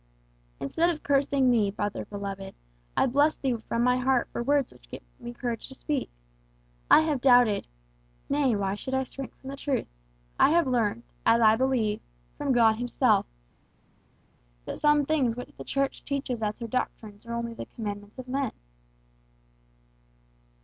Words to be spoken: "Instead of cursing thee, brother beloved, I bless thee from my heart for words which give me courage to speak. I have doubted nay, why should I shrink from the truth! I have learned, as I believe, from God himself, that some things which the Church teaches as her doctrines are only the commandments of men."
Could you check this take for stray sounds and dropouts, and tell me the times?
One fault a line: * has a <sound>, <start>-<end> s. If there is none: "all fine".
all fine